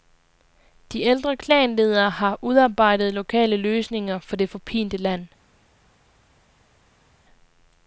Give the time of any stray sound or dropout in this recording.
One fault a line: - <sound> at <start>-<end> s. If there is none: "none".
none